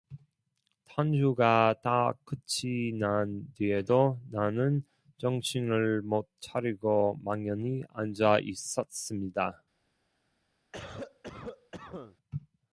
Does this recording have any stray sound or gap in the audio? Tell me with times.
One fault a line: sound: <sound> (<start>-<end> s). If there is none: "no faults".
sound: cough (10.7-12.2 s)